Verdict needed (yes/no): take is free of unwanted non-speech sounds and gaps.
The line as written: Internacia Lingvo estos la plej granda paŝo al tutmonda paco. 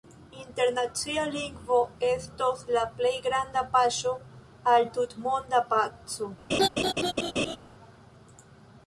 no